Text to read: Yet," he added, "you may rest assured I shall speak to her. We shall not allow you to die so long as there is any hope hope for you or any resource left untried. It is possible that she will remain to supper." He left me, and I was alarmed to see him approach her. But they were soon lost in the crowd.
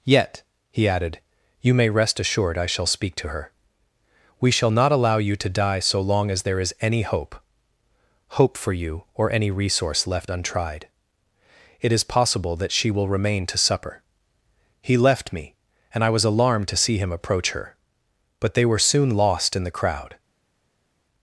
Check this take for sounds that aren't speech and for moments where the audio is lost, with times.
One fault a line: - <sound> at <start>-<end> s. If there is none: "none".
none